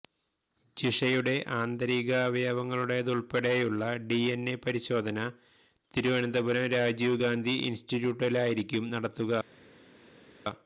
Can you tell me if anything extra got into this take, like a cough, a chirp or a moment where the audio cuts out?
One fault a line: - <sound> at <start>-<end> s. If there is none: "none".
none